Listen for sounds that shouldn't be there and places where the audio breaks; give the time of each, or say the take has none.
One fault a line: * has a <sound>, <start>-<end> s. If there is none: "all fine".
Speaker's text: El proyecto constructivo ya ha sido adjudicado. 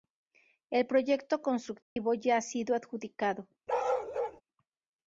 * has a dropout, 1.8-2.0 s
* has a bark, 3.7-4.4 s